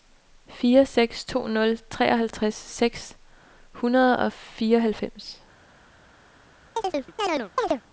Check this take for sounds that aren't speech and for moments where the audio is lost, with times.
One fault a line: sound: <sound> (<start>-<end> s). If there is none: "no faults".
sound: chirp (6.8-7.8 s)